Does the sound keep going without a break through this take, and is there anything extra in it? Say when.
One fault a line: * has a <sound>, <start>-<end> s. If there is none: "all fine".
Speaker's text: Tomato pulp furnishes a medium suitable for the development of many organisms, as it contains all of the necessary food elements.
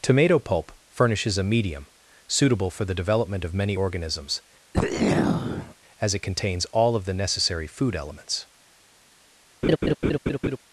* has a throat clearing, 4.7-5.7 s
* has a laugh, 9.6-10.6 s